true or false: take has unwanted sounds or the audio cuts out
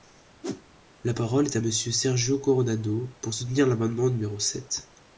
true